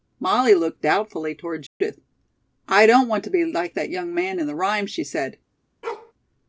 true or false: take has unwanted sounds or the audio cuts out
true